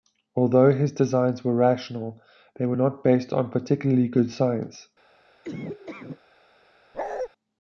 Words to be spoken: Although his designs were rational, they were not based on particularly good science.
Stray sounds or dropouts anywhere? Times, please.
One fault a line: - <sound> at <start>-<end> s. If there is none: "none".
- laugh at 5.4-6.2 s
- bark at 6.9-7.3 s